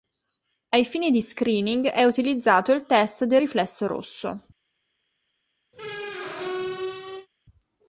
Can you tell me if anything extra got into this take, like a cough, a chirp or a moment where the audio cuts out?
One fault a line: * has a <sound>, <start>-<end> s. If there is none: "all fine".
* has a squeak, 5.7-7.3 s